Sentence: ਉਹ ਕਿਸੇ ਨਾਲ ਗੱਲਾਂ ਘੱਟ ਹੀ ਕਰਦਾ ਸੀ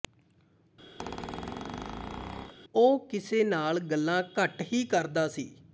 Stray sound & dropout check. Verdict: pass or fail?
fail